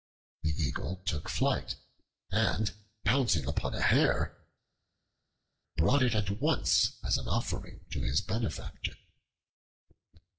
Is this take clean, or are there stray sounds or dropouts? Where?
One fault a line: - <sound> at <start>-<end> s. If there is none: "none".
none